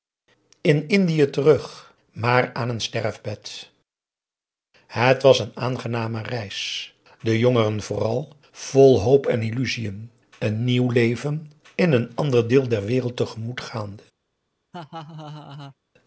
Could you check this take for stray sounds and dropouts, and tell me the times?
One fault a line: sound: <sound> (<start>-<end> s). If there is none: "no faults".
sound: laugh (14.7-15.8 s)